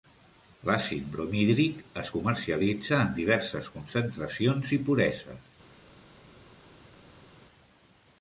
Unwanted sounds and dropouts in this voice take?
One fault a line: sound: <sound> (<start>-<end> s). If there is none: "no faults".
no faults